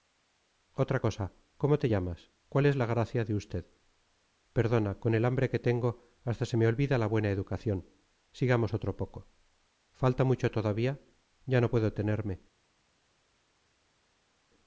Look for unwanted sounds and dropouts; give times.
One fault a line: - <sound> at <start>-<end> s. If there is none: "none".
none